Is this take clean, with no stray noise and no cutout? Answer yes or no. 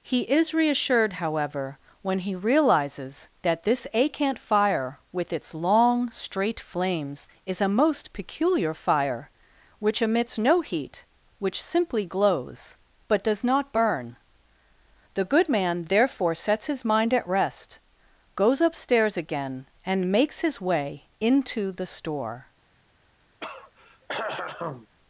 no